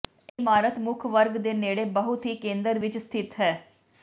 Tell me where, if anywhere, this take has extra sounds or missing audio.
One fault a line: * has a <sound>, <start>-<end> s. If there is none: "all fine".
all fine